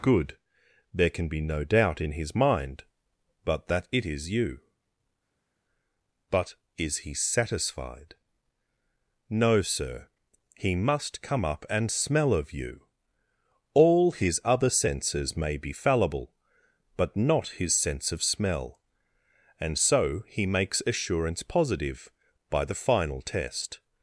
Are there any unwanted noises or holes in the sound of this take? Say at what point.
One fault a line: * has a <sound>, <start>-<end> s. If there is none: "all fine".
all fine